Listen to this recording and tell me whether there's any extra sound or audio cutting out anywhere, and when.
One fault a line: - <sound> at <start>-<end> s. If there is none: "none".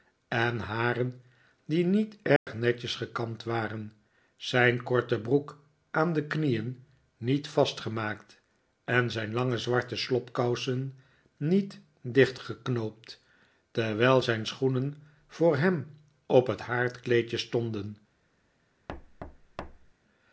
- dropout at 2.4-2.5 s
- thud at 18.9-19.9 s